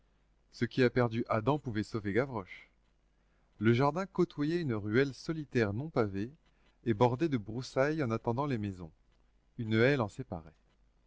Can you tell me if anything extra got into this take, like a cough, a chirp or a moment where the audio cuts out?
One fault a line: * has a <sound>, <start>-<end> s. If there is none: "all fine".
all fine